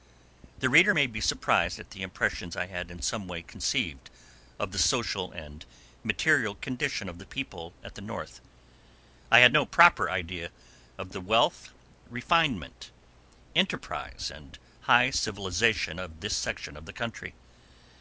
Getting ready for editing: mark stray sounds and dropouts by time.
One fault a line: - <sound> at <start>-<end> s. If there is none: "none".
none